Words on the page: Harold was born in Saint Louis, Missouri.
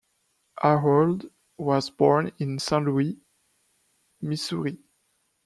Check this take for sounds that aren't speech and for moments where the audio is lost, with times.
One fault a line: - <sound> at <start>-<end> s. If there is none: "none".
none